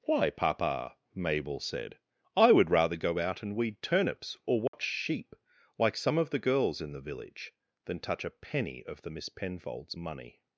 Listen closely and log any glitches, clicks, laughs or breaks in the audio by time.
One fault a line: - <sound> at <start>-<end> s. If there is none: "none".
- dropout at 4.7-4.7 s